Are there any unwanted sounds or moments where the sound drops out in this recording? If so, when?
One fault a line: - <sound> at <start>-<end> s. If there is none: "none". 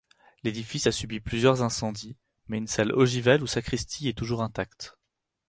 none